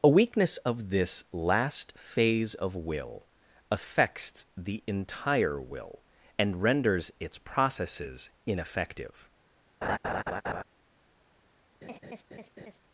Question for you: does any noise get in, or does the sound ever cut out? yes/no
yes